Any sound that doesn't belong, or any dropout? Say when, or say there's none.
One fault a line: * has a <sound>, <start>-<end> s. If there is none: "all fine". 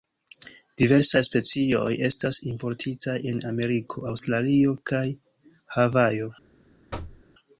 * has a thud, 6.9-7.2 s